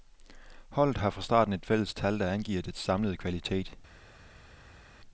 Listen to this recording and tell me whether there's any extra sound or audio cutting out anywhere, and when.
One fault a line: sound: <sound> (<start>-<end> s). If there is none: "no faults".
no faults